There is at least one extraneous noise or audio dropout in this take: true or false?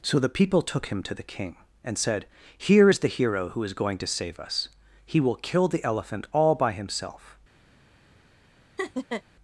true